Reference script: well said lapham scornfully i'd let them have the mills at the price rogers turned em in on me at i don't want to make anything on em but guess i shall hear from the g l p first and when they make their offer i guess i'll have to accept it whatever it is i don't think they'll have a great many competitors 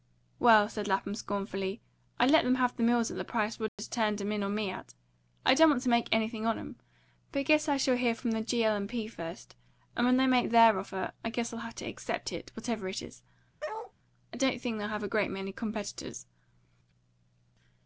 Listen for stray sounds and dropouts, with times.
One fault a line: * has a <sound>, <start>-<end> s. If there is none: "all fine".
* has a dropout, 3.7-3.8 s
* has a bark, 13.6-13.9 s